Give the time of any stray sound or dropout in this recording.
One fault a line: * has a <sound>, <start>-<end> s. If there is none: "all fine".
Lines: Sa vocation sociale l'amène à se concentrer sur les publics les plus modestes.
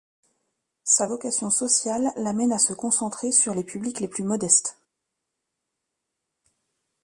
all fine